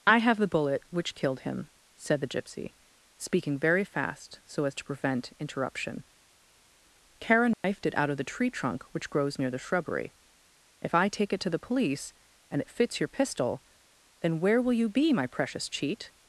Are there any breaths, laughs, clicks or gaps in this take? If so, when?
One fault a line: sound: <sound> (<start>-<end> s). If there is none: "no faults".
sound: dropout (7.5-7.6 s)